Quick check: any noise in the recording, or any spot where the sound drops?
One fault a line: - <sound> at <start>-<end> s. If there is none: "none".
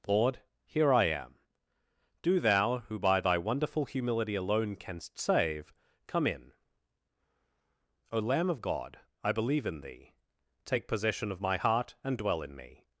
none